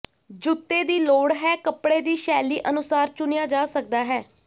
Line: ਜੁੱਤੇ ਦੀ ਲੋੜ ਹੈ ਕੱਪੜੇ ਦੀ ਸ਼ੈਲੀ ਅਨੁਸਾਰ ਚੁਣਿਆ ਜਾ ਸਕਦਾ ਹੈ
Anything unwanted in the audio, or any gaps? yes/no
no